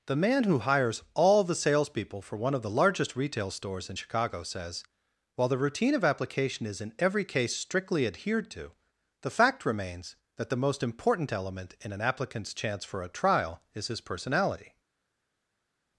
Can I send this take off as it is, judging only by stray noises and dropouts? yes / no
yes